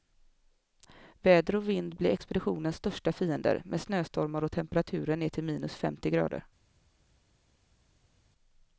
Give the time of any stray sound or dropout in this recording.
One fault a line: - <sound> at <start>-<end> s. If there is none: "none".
none